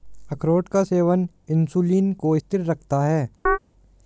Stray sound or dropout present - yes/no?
yes